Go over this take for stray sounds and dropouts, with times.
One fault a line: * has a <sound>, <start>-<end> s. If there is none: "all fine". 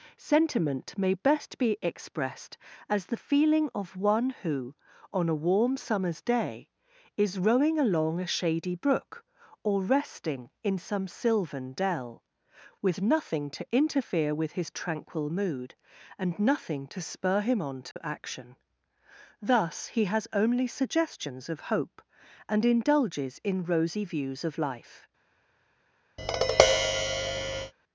* has a dropout, 17.9-18.0 s
* has a tap, 26.2-27.7 s